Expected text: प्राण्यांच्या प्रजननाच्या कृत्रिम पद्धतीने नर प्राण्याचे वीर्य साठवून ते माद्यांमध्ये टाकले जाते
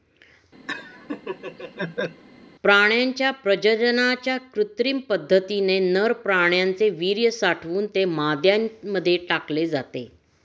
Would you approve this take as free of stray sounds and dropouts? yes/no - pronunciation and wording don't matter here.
no